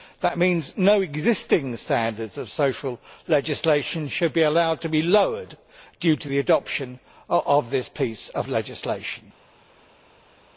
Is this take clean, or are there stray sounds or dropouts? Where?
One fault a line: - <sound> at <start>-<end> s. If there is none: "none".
none